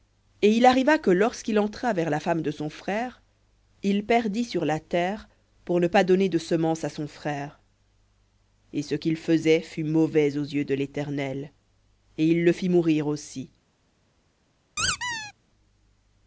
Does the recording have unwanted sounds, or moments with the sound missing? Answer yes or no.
yes